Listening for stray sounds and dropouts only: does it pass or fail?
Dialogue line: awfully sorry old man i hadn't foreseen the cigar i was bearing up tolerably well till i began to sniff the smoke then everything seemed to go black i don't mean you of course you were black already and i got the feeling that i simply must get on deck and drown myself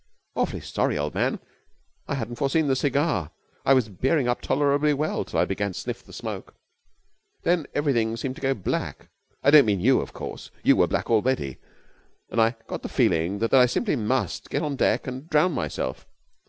pass